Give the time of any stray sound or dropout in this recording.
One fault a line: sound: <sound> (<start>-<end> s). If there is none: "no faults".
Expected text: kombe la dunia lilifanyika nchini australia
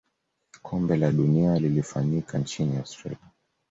no faults